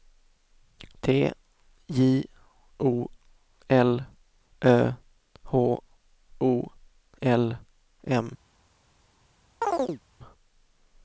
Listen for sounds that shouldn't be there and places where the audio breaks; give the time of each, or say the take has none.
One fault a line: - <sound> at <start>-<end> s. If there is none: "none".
- chirp at 9.6-10.0 s